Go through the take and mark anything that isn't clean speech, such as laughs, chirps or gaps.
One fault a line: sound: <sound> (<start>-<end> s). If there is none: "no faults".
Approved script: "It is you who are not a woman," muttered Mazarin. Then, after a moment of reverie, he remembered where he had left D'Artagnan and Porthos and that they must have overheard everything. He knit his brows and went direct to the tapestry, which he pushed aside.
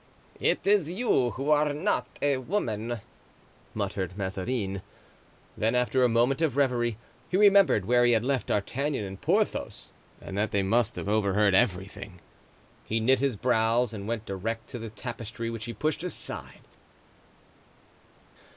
no faults